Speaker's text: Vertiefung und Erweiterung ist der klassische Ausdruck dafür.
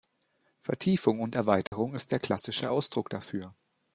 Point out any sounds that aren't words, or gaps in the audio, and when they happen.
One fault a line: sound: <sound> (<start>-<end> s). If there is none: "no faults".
sound: dropout (1.7-1.7 s)